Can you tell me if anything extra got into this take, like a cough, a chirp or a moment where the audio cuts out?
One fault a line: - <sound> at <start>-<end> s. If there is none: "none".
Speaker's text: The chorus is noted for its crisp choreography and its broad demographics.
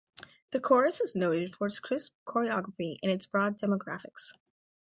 none